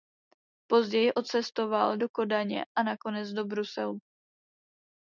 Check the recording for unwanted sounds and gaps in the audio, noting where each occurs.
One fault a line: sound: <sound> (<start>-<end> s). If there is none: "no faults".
no faults